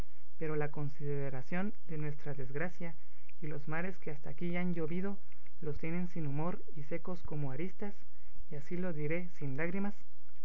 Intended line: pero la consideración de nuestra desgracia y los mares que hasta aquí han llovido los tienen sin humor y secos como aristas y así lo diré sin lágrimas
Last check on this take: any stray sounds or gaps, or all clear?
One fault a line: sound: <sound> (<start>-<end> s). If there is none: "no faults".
no faults